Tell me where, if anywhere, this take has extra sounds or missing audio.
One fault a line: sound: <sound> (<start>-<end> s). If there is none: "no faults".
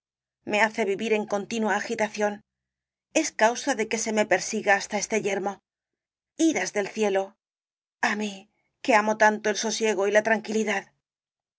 no faults